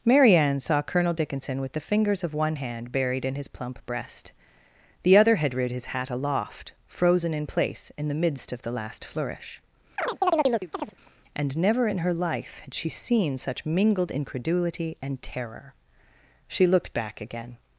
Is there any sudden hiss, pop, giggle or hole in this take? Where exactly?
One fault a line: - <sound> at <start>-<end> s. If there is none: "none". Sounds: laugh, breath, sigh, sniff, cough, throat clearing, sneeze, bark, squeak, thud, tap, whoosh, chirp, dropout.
- chirp at 10.0-10.9 s